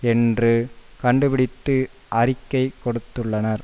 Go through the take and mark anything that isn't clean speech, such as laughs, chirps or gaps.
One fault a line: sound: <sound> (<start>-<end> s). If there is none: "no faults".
no faults